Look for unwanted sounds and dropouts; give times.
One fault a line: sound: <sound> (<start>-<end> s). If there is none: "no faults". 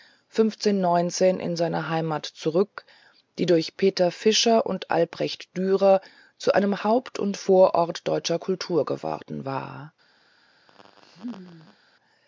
sound: laugh (10.7-11.8 s)